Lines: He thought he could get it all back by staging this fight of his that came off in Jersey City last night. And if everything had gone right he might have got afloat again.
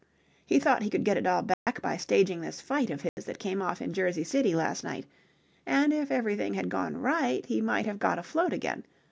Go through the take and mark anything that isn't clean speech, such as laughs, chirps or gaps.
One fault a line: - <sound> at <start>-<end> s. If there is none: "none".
- dropout at 1.5-1.7 s
- dropout at 3.1-3.2 s